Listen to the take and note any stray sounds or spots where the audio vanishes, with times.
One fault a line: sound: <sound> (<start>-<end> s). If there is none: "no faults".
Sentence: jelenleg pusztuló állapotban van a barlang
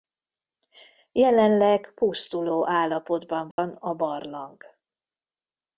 sound: dropout (3.5-3.6 s)